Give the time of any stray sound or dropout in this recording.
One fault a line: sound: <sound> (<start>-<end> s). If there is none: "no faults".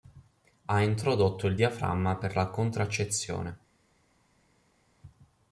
no faults